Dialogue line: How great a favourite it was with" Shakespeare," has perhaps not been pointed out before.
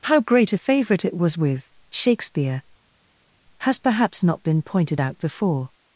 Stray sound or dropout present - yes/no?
no